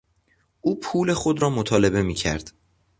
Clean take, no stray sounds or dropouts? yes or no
yes